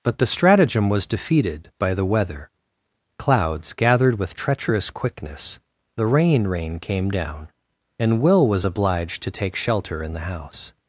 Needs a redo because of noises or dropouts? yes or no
no